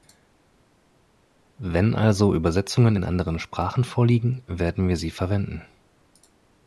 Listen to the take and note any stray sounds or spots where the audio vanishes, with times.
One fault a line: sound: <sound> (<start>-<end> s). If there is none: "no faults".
no faults